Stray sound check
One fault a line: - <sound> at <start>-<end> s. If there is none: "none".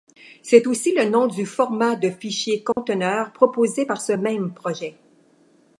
- dropout at 2.7-2.8 s